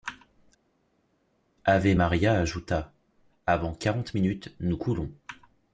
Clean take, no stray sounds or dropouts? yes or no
yes